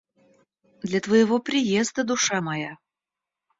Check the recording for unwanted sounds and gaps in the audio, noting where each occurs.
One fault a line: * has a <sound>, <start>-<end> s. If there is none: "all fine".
all fine